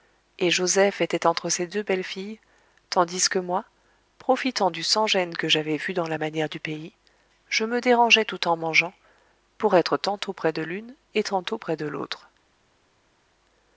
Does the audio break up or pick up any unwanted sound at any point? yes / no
no